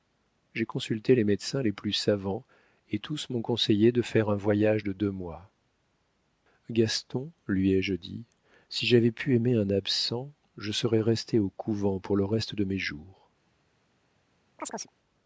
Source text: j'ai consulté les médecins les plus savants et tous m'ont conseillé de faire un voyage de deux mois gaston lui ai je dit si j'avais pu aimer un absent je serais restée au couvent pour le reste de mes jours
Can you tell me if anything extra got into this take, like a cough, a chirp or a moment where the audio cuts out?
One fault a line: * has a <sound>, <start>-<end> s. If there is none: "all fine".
* has a chirp, 14.6-14.9 s